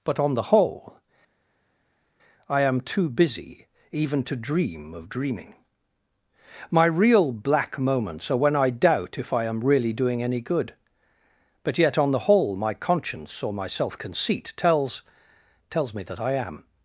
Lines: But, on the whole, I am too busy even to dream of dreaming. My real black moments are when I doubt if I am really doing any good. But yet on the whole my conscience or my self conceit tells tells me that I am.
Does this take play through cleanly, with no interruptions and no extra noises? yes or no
yes